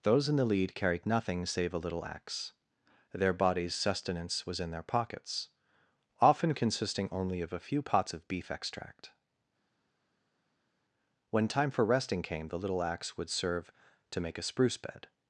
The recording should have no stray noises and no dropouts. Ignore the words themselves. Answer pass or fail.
pass